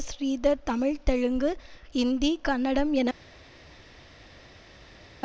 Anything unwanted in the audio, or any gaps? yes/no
no